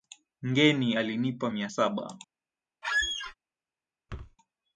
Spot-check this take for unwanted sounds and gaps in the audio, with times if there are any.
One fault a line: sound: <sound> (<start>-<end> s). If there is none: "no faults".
sound: squeak (2.8-3.3 s)
sound: thud (4.1-4.4 s)